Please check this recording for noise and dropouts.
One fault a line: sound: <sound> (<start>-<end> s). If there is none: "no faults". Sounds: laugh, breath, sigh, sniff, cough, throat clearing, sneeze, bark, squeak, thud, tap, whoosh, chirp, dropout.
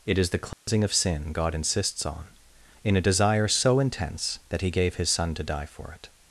sound: dropout (0.5-0.7 s)